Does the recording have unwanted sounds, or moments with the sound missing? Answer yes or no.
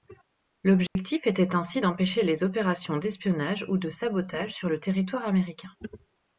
yes